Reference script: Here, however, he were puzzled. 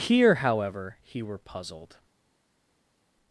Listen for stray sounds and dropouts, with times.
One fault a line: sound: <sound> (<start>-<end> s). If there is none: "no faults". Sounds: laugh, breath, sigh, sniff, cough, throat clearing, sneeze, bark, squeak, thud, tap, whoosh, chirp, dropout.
no faults